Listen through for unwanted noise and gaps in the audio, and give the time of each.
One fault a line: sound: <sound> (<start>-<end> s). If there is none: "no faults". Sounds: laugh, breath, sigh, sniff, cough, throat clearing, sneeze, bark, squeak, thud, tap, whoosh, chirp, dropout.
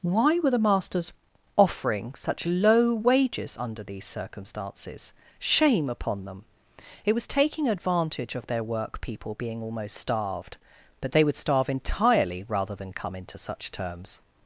no faults